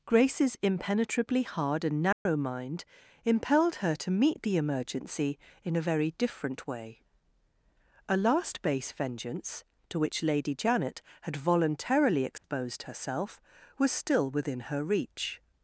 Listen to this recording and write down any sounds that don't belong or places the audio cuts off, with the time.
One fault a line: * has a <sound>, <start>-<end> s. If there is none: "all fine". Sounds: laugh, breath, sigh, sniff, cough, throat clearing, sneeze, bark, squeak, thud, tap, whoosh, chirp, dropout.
* has a dropout, 2.1-2.3 s
* has a dropout, 12.4-12.4 s